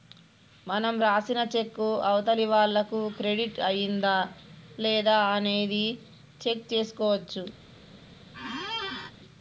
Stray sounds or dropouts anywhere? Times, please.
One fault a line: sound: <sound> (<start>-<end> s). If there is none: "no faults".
sound: squeak (8.3-9.1 s)